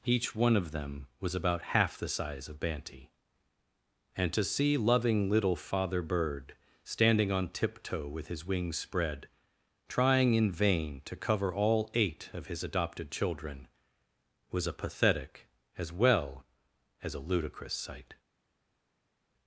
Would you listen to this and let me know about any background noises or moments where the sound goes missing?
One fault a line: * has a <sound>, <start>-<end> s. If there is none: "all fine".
all fine